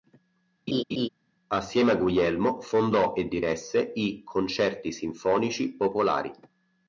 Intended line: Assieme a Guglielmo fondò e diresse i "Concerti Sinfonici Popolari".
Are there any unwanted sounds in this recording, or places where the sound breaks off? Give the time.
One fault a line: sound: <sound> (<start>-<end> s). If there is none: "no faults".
sound: laugh (0.7-1.1 s)